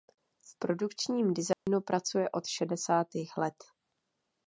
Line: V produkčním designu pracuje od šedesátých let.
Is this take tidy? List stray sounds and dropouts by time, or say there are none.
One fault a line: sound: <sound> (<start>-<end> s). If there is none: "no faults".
sound: dropout (1.5-1.7 s)